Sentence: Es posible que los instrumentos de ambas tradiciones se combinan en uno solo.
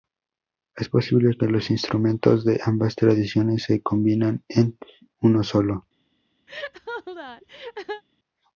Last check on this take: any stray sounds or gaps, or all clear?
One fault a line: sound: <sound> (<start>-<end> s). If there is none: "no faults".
sound: laugh (6.5-8.0 s)